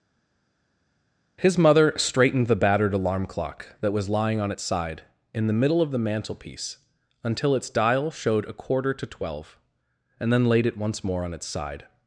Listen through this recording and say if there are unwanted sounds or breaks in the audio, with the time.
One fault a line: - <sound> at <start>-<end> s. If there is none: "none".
none